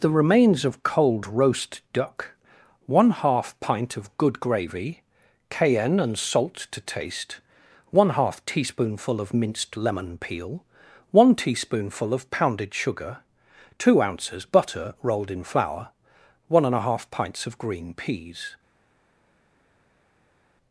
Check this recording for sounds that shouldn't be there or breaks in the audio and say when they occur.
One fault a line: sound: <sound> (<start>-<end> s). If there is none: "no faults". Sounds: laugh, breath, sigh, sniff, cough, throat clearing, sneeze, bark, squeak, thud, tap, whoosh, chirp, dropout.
no faults